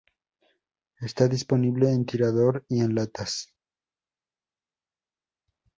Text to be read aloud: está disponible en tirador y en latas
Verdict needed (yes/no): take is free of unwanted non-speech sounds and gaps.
yes